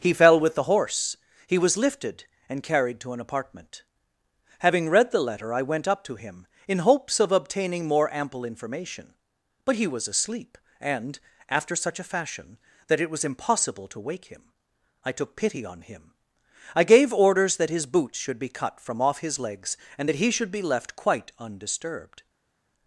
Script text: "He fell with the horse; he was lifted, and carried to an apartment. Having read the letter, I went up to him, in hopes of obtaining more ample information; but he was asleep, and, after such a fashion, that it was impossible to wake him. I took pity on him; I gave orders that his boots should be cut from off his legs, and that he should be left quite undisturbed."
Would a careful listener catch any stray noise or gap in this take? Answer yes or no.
no